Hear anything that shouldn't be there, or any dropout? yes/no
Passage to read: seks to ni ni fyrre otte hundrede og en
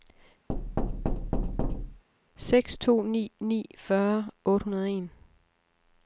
yes